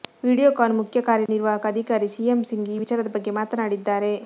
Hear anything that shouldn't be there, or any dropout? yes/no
yes